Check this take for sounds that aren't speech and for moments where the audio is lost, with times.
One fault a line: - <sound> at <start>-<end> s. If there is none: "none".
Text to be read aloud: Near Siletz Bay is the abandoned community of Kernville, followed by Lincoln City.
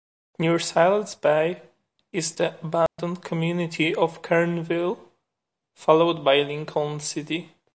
- dropout at 2.9-3.0 s